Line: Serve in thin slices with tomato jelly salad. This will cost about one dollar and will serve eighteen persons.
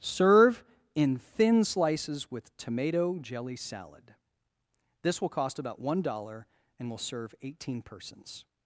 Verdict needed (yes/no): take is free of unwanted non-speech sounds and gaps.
yes